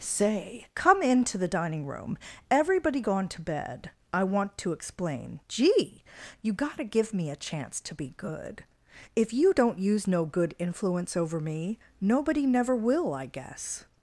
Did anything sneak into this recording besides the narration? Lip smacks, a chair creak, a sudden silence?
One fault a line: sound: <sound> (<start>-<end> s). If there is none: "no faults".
no faults